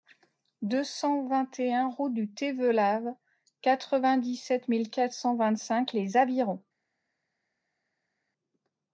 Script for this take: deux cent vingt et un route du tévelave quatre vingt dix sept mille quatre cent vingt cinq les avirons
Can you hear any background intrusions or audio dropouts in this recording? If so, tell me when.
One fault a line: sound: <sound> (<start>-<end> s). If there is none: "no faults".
no faults